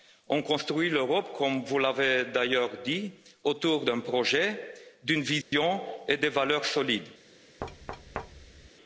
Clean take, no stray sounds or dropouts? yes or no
no